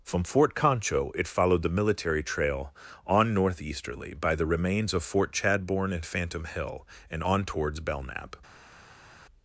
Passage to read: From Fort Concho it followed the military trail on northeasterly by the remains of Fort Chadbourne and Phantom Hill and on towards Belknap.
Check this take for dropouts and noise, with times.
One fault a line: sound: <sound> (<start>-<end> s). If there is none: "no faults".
no faults